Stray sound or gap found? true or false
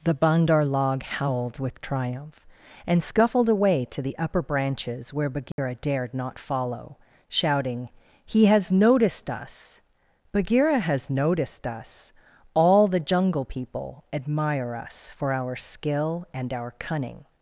true